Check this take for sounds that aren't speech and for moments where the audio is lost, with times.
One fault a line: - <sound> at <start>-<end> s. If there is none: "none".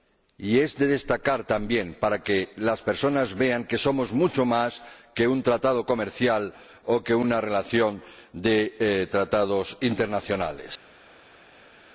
none